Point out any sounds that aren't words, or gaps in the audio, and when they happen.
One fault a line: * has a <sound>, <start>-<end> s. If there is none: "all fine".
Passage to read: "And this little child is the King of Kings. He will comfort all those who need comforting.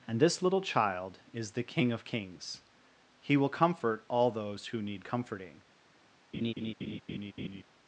* has a laugh, 6.3-7.6 s